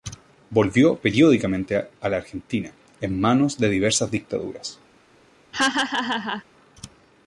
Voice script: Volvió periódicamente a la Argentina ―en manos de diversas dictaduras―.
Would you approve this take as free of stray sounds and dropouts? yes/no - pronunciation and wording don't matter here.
no